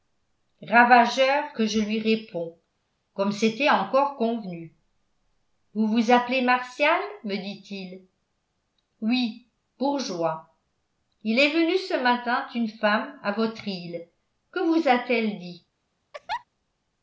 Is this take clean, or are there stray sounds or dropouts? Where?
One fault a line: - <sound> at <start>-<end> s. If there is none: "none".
- laugh at 16.1-16.4 s